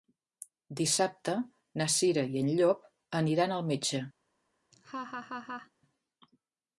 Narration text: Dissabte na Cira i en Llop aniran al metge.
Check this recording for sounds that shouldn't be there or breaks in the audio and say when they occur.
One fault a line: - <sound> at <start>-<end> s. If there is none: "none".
- laugh at 4.7-5.7 s